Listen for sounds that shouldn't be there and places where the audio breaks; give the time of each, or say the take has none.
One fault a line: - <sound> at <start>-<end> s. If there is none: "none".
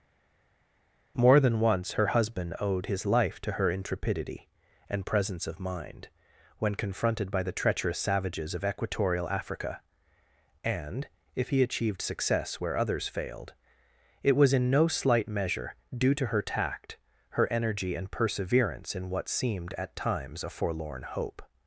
none